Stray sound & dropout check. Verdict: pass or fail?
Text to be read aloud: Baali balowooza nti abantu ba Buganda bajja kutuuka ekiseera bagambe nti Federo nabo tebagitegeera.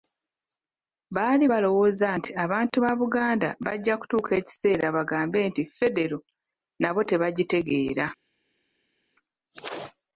pass